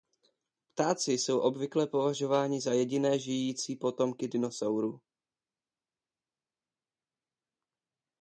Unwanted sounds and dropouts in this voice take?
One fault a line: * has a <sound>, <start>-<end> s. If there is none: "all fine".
all fine